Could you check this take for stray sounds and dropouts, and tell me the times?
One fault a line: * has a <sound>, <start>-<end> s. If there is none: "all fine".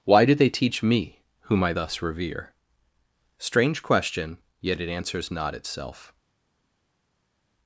all fine